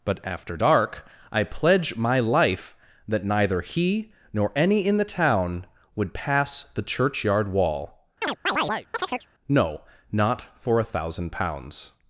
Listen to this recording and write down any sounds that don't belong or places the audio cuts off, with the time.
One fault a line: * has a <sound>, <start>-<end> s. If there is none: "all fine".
* has a chirp, 8.2-9.3 s